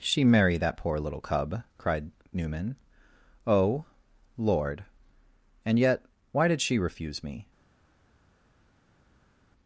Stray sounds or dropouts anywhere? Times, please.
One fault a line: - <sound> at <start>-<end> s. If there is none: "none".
none